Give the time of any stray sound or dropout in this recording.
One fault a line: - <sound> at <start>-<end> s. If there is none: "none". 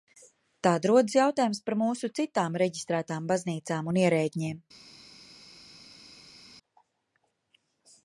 none